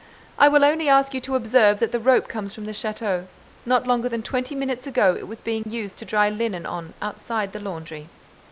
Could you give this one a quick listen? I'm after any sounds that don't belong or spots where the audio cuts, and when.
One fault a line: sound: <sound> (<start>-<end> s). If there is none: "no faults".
sound: dropout (5.6-5.7 s)